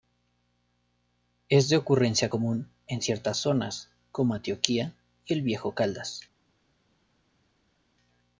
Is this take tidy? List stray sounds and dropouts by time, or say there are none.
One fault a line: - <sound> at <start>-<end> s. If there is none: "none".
none